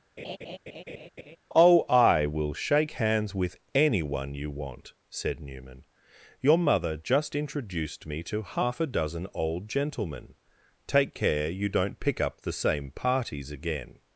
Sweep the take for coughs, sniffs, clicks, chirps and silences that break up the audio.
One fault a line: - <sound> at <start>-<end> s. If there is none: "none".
- laugh at 0.2-1.4 s